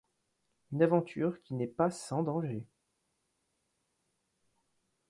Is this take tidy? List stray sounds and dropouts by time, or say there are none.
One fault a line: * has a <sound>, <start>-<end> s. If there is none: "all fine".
all fine